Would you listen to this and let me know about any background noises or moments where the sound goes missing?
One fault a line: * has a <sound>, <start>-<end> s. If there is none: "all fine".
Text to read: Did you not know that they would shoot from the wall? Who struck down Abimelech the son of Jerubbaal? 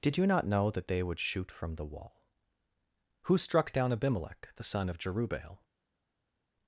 all fine